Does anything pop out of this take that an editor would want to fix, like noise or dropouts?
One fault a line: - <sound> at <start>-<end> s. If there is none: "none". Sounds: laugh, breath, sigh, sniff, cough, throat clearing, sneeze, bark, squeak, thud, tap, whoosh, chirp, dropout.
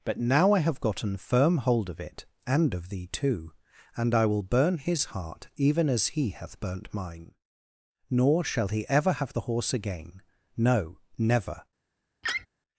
- laugh at 12.2-12.5 s